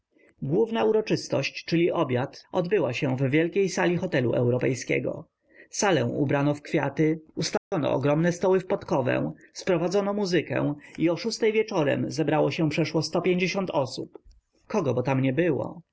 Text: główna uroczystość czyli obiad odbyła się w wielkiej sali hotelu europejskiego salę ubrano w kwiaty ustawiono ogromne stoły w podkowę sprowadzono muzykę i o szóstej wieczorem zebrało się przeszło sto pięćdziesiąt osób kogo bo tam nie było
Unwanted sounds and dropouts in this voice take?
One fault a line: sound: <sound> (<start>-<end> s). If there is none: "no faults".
sound: dropout (7.6-7.7 s)